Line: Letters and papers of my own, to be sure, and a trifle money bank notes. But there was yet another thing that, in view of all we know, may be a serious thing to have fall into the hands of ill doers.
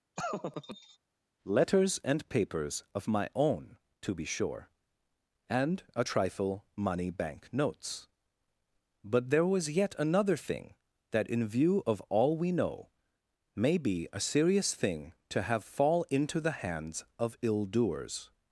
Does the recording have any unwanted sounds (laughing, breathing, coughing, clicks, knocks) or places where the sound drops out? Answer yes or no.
yes